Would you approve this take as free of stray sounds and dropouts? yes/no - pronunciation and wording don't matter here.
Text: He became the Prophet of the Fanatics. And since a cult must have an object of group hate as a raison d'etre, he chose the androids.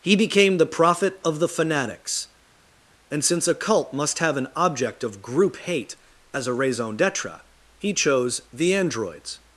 yes